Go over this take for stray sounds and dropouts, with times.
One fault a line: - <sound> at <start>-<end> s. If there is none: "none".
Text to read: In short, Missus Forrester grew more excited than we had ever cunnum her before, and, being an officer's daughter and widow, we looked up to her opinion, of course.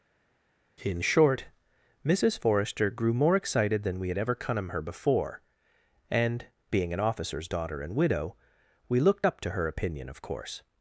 none